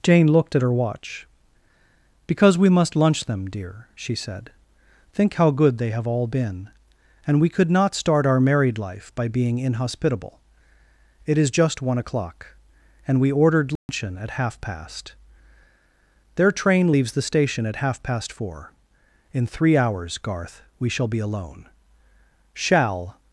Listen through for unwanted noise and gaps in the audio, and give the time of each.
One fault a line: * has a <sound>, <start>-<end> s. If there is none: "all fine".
* has a dropout, 13.8-13.9 s